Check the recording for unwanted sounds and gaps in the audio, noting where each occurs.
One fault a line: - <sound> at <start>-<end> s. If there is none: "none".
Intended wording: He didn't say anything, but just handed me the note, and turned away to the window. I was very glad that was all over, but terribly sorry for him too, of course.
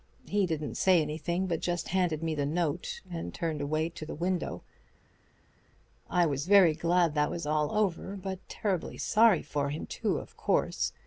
none